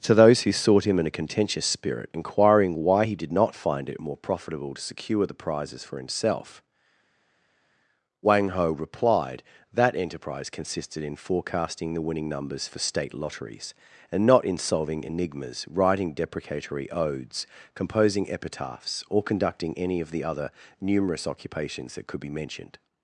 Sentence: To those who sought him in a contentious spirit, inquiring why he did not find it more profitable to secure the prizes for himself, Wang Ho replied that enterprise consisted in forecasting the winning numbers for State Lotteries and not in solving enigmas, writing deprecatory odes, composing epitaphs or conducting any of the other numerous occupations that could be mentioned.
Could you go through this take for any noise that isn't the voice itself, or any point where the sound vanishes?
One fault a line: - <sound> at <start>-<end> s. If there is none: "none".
none